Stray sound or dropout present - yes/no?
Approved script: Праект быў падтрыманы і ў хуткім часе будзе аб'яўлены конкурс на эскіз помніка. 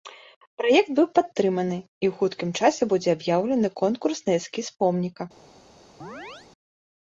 yes